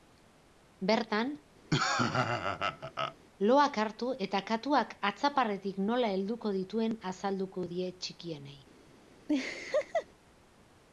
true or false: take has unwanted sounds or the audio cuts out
true